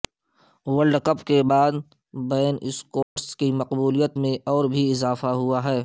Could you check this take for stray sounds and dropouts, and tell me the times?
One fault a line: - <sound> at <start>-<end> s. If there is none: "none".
- dropout at 3.0-3.2 s